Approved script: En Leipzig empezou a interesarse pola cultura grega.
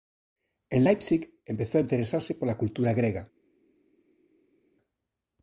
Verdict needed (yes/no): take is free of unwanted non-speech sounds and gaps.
yes